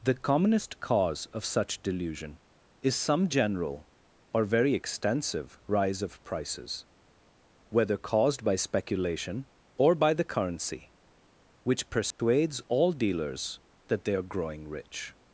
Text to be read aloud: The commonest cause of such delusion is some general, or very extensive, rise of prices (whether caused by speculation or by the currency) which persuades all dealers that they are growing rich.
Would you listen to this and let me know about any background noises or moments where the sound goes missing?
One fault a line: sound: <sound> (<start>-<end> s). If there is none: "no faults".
sound: dropout (12.1-12.2 s)